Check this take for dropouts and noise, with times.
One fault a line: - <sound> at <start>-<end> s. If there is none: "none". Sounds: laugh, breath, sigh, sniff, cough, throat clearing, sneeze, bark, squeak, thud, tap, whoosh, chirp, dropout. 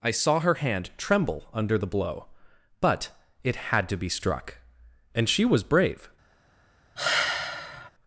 - sigh at 7.0-7.9 s